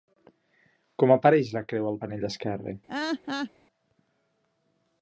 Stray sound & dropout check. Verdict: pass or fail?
fail